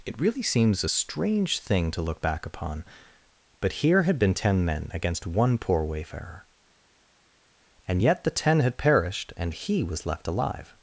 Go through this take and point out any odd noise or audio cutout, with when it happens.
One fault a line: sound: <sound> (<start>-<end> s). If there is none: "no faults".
no faults